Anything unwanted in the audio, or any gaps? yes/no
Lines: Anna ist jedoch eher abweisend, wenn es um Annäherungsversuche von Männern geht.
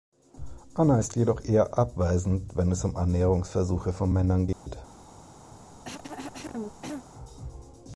yes